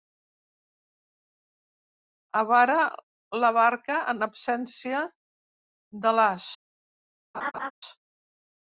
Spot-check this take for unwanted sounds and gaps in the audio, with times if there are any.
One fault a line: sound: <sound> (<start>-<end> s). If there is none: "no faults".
sound: laugh (7.3-7.7 s)